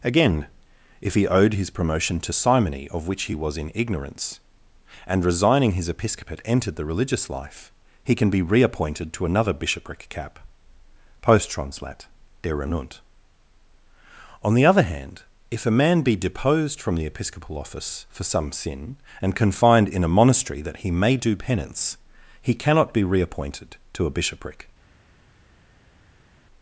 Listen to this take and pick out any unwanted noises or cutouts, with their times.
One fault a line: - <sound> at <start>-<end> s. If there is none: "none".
none